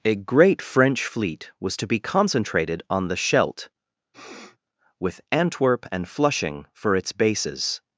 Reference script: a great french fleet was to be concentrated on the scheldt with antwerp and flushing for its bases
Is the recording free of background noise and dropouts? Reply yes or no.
no